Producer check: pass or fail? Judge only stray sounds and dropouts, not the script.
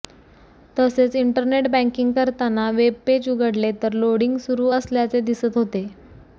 pass